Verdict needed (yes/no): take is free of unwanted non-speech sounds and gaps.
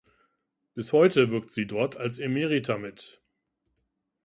yes